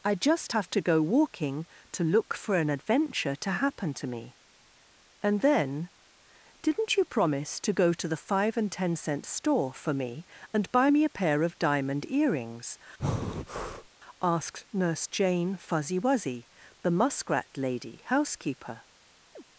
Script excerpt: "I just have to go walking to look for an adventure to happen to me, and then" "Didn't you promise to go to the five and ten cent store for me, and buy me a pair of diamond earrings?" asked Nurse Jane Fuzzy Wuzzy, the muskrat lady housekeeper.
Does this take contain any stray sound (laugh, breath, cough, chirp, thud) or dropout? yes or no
yes